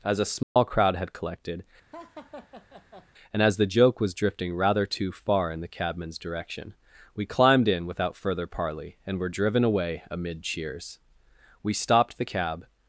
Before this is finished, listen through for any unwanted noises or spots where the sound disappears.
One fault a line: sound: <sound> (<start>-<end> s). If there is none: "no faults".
sound: dropout (0.4-0.6 s)
sound: laugh (1.9-3.1 s)